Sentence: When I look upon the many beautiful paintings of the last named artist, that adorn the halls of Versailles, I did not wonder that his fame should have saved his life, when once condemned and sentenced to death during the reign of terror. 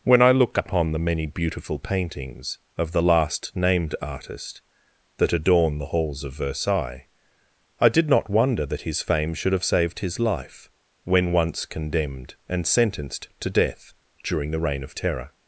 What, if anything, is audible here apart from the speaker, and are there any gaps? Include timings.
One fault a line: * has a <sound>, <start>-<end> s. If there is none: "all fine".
all fine